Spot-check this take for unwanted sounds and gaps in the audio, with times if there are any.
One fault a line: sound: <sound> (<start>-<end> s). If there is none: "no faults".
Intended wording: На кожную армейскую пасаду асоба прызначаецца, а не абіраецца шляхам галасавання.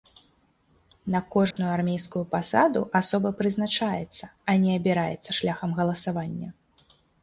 sound: dropout (1.5-1.6 s)